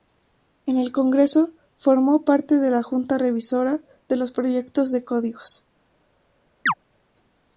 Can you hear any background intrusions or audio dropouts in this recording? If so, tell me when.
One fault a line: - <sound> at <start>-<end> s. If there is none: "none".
- chirp at 6.7-6.7 s